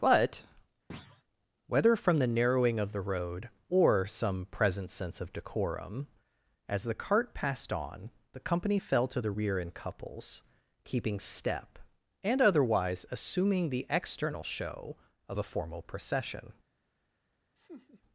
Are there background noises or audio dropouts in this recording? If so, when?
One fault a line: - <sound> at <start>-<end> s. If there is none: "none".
- thud at 0.9-1.2 s
- laugh at 17.6-18.0 s